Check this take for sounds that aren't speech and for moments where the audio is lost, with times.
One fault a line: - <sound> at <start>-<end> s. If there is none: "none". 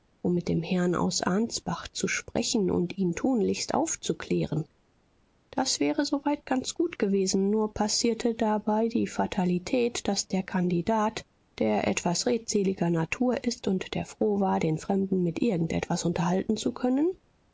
none